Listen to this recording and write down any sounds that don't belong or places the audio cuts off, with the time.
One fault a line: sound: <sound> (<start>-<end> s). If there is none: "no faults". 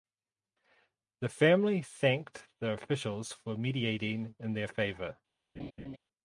sound: laugh (5.6-6.0 s)